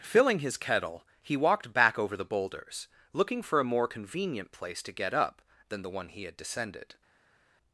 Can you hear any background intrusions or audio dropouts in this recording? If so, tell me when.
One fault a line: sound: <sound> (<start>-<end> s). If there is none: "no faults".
no faults